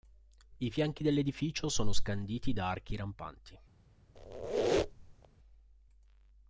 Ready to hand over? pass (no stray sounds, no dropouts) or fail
fail